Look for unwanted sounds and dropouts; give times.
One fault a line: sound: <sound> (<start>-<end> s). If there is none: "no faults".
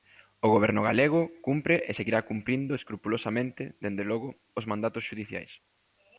no faults